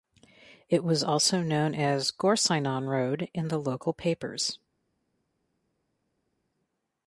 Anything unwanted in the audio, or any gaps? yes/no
no